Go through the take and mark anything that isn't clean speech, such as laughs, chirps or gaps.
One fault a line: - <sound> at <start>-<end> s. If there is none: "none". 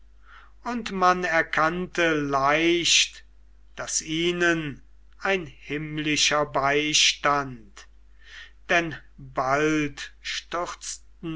none